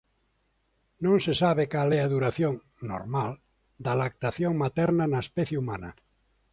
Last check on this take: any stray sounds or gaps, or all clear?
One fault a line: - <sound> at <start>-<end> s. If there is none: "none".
none